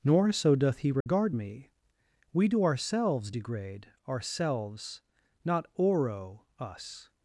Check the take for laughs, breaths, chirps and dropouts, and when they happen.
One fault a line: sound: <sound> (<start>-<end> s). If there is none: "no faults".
sound: dropout (1.0-1.1 s)